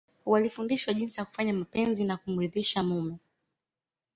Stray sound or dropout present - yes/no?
no